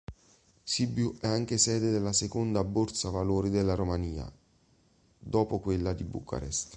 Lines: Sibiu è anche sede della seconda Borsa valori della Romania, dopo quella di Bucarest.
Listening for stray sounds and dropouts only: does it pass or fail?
pass